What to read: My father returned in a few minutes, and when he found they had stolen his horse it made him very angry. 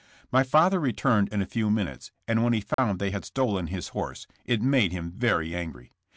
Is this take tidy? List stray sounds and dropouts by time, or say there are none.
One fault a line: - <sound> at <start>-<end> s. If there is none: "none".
- dropout at 2.7-2.8 s